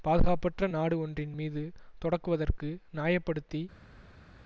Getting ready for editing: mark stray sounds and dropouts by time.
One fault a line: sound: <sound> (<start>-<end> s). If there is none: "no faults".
no faults